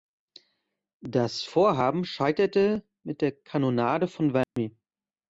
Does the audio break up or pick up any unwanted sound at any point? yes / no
yes